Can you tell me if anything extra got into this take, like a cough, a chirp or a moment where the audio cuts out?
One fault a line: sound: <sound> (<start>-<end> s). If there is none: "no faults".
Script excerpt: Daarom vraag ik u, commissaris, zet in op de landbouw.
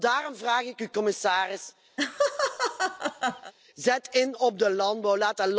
sound: laugh (2.0-3.5 s)